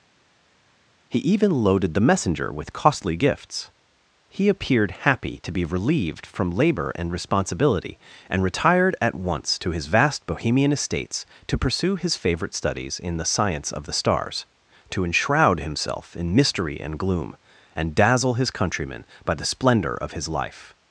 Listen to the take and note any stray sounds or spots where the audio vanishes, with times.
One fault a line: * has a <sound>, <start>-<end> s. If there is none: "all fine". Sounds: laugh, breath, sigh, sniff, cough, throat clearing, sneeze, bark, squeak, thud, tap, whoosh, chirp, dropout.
all fine